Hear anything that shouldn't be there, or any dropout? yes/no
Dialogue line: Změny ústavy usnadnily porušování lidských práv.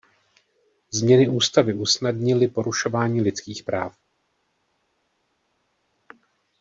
no